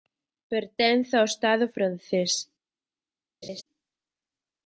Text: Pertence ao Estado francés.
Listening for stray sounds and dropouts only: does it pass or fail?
fail